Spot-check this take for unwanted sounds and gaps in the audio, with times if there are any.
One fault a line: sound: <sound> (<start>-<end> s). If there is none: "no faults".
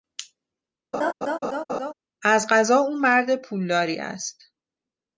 sound: laugh (0.9-1.9 s)